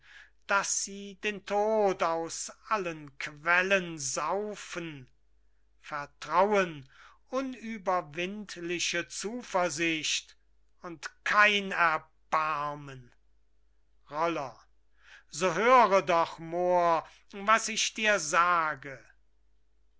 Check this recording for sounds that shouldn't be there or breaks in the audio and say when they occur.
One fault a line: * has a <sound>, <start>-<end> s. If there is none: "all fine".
all fine